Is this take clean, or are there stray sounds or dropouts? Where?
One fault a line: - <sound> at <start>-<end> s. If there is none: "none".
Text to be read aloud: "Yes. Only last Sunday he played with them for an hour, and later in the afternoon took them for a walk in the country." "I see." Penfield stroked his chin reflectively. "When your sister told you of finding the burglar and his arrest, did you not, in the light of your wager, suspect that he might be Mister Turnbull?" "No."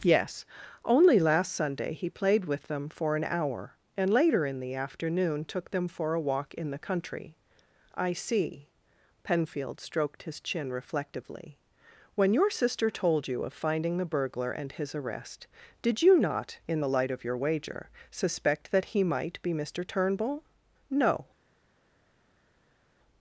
none